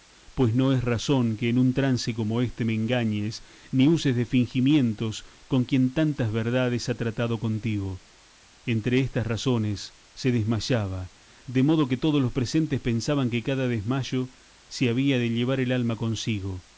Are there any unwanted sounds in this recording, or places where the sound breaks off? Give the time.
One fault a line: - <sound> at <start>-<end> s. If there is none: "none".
none